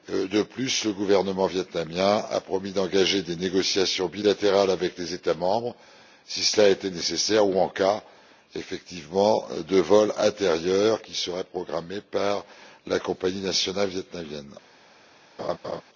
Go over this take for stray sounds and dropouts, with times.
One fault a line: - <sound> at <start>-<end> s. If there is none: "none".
- laugh at 15.4-15.8 s